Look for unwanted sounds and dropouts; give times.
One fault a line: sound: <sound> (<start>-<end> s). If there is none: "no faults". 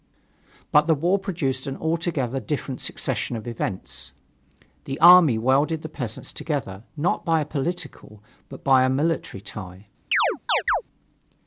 sound: chirp (10.1-10.8 s)